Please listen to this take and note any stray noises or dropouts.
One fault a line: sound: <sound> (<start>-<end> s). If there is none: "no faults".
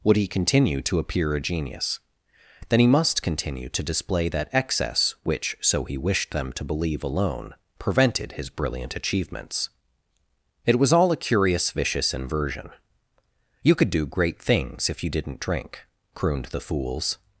no faults